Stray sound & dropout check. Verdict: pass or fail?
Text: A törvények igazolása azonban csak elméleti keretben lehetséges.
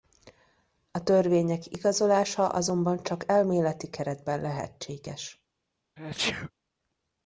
fail